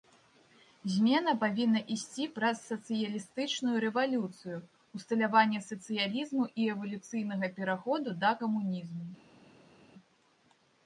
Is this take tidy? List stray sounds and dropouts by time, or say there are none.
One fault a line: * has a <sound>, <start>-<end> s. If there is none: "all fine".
all fine